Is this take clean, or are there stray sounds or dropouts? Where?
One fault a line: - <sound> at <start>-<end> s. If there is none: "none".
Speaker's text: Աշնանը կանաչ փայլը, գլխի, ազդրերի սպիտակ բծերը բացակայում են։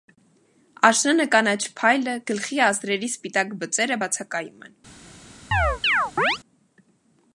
- chirp at 5.5-6.4 s